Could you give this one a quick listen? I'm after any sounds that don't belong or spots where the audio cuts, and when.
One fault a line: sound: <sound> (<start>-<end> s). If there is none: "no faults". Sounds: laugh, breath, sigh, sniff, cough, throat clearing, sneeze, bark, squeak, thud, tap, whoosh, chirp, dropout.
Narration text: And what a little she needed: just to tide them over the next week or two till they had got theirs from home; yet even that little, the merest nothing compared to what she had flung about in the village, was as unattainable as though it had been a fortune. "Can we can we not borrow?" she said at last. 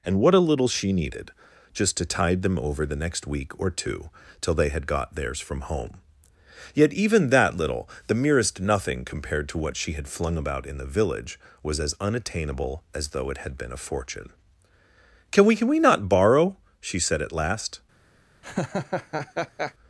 sound: laugh (18.4-19.7 s)